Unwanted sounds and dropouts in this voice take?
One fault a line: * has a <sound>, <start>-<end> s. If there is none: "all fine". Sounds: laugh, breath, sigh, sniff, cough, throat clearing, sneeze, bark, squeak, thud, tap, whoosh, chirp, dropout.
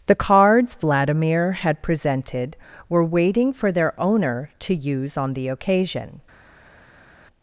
all fine